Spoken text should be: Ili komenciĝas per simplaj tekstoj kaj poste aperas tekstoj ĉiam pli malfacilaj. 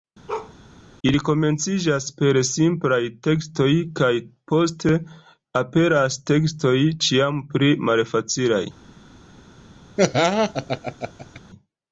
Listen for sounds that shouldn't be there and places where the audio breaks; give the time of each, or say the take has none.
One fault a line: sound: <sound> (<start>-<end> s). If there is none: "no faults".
sound: bark (0.3-0.5 s)
sound: laugh (10.0-11.4 s)